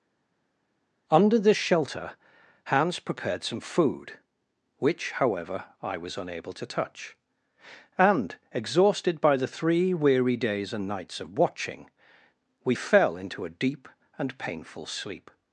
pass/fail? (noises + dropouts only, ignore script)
pass